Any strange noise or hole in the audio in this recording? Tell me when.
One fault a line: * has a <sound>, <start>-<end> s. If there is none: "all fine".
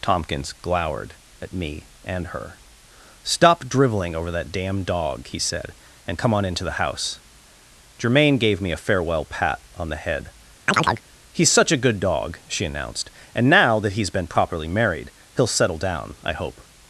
* has a chirp, 10.7-11.0 s